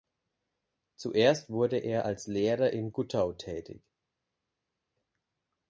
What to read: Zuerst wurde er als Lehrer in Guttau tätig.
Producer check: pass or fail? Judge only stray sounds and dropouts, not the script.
pass